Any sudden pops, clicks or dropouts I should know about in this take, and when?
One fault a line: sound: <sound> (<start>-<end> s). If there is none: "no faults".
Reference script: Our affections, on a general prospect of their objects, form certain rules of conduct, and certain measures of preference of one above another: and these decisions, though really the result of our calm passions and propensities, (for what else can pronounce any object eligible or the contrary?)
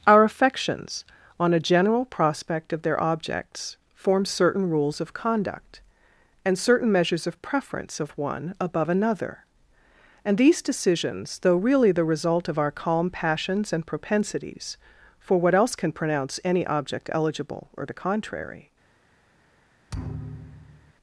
sound: thud (19.9-20.9 s)